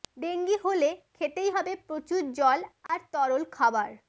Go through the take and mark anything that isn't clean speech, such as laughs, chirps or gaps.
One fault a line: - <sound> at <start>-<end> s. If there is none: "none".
- dropout at 2.9-2.9 s